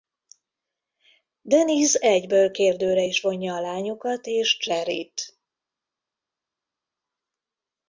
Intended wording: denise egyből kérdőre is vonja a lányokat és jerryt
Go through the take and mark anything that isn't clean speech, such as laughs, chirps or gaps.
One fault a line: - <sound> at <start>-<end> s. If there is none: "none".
none